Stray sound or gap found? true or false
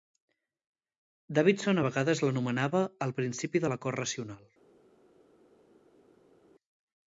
false